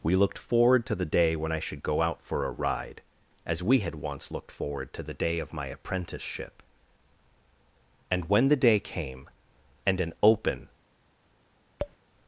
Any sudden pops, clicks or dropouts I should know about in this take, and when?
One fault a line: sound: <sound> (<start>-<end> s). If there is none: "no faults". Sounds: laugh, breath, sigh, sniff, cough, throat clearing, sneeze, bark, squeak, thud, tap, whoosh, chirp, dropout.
sound: tap (11.8-12.0 s)